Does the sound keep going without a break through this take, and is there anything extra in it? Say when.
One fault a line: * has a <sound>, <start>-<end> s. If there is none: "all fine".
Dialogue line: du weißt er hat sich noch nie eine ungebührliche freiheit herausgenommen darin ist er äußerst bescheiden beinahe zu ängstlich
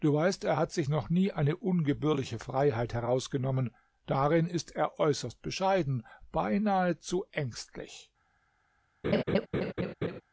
* has a laugh, 9.0-10.2 s